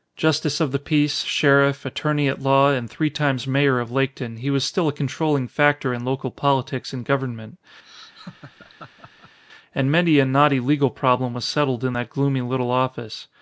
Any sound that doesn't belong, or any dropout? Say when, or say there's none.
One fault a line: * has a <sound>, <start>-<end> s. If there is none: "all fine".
* has a laugh, 7.8-9.4 s